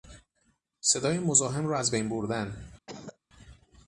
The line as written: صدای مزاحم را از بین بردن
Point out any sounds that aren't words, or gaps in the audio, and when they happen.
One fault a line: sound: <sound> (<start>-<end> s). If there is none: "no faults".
sound: cough (2.9-3.2 s)